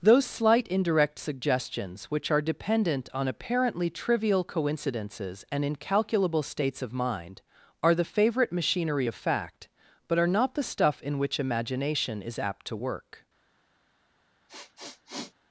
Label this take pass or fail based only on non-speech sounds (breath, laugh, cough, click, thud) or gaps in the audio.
fail